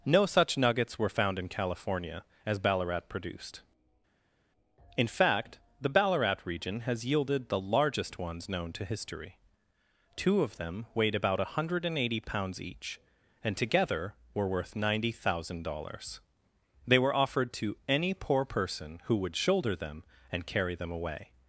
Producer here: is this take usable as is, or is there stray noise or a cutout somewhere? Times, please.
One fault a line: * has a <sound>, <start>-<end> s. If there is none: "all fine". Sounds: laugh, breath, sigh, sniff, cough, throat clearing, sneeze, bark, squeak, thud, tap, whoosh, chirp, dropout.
all fine